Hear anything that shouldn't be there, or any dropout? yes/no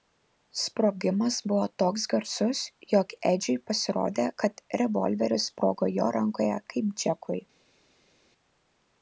no